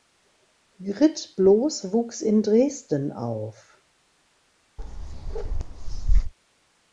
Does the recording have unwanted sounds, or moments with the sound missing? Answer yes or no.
yes